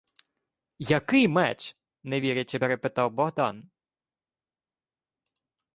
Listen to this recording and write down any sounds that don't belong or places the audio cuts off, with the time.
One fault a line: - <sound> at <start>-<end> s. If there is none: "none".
none